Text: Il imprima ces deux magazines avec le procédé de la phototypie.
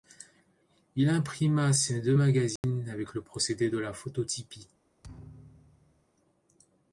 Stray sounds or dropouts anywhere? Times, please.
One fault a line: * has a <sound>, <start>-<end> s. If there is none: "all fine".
* has a dropout, 2.6-2.6 s
* has a thud, 5.0-6.1 s